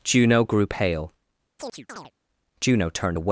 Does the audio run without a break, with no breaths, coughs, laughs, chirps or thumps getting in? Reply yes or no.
no